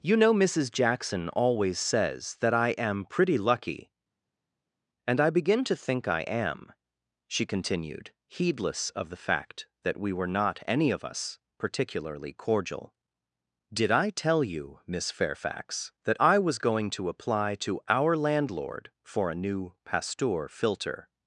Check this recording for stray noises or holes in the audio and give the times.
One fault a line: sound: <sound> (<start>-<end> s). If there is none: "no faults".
no faults